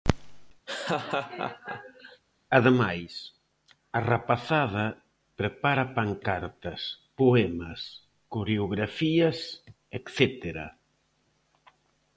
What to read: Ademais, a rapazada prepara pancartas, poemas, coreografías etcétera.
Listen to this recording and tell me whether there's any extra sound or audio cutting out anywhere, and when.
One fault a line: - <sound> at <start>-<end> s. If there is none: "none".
- laugh at 0.7-2.2 s